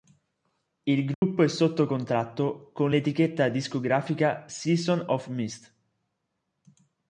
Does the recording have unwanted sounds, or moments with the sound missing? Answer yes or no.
yes